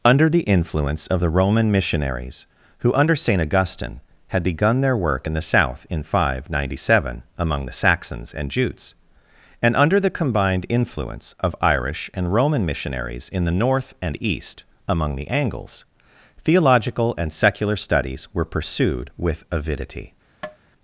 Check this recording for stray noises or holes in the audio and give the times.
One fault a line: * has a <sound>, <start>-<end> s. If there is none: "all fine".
* has a tap, 20.4-20.6 s